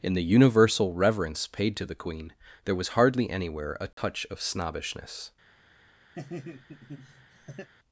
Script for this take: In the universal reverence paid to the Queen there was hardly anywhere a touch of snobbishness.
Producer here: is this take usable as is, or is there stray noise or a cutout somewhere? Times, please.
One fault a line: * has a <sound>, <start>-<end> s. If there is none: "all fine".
* has a dropout, 3.9-4.0 s
* has a laugh, 6.2-7.7 s